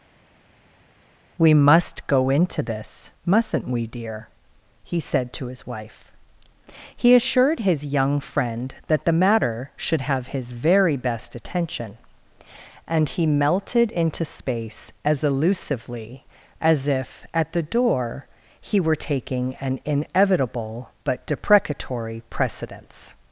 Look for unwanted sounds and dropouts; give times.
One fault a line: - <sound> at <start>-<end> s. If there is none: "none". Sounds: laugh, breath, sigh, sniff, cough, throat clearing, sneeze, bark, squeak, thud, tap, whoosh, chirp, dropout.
none